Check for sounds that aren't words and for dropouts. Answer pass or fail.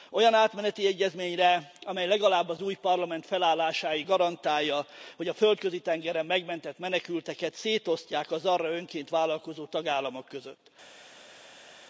pass